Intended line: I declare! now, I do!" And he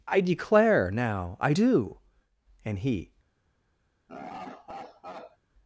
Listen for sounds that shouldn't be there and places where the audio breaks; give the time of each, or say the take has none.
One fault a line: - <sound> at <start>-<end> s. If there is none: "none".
- laugh at 4.1-5.4 s